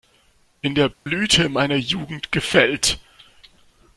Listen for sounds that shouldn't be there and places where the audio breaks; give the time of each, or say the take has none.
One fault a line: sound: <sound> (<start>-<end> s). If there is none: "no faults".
sound: dropout (0.9-1.1 s)